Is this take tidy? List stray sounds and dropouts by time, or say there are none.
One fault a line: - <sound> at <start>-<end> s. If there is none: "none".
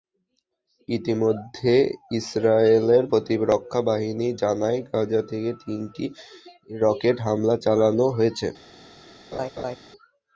- laugh at 9.3-9.8 s